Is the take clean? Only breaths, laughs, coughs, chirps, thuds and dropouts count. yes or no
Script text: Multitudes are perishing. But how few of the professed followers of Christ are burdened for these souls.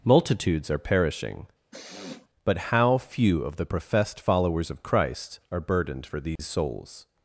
no